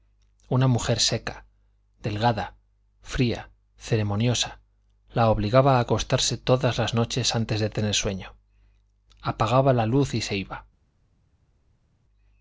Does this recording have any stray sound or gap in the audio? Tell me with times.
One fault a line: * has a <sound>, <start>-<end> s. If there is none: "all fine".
all fine